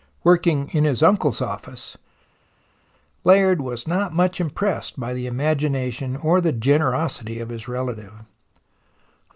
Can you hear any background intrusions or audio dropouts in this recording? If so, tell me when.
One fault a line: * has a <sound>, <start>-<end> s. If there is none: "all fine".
all fine